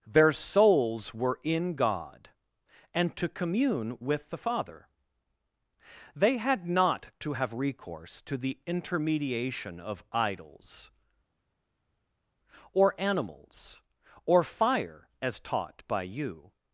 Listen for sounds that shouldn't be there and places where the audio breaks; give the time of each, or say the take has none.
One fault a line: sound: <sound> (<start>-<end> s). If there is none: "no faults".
no faults